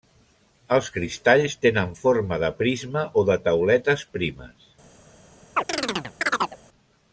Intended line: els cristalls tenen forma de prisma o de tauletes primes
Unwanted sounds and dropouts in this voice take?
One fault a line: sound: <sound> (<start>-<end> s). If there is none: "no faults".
sound: chirp (5.6-6.6 s)